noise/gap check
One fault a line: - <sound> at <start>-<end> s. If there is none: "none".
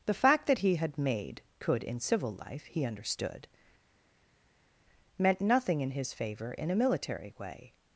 none